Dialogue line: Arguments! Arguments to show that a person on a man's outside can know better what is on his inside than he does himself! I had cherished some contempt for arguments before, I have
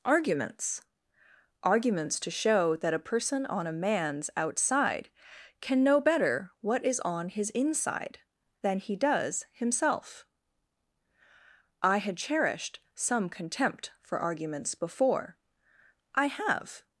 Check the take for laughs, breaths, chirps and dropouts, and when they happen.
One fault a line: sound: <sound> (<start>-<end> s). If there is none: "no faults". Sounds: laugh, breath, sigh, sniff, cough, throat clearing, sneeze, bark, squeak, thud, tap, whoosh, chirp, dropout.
no faults